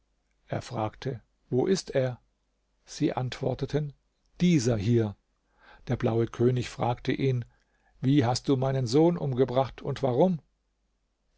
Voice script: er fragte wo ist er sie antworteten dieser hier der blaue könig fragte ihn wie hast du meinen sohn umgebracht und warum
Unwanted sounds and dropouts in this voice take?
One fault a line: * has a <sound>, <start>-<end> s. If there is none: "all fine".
all fine